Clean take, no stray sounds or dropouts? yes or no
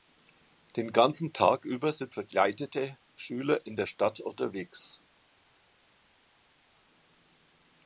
yes